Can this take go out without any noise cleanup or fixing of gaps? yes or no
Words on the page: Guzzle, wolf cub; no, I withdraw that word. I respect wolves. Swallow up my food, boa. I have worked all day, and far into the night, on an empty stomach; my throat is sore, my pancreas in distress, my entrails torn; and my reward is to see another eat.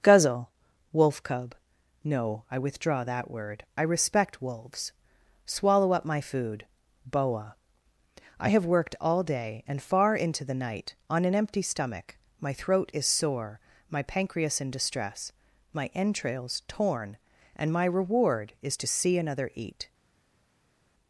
yes